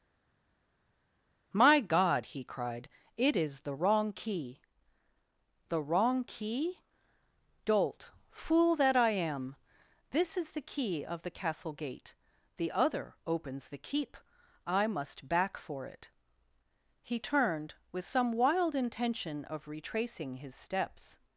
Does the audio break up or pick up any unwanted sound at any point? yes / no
no